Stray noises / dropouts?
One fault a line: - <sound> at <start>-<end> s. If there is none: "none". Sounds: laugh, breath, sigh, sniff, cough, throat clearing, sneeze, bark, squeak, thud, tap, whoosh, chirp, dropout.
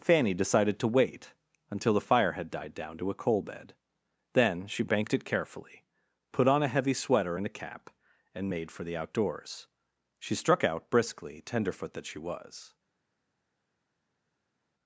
none